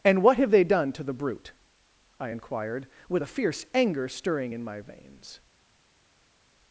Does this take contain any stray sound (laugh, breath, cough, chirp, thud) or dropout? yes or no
no